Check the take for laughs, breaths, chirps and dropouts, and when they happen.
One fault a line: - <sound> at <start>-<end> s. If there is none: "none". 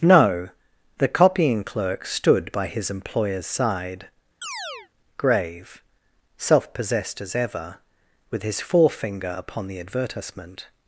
- chirp at 4.4-4.9 s